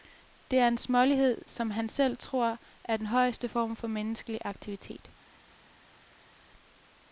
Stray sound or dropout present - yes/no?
no